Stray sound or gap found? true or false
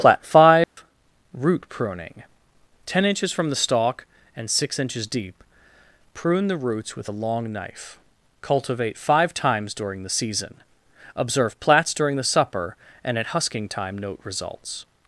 true